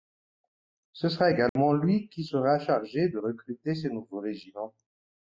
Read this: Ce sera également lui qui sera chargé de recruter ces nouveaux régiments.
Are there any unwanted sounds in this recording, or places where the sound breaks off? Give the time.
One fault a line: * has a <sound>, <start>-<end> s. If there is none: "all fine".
* has a dropout, 1.5-1.6 s